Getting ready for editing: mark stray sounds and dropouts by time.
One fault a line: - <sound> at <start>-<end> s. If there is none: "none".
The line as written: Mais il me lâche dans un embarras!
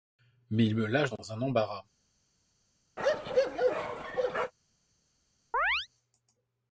- bark at 3.0-4.5 s
- chirp at 5.5-5.9 s